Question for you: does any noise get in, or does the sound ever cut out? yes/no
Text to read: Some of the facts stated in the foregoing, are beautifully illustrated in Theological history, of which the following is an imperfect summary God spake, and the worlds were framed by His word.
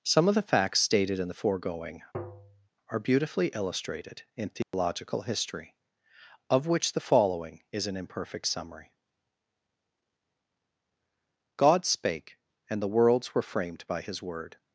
yes